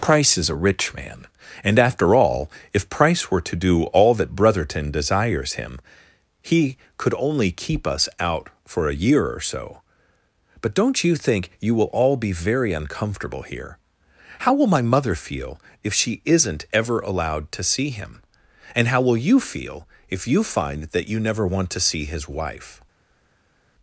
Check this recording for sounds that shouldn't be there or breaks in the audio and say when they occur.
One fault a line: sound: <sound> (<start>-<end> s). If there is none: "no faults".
no faults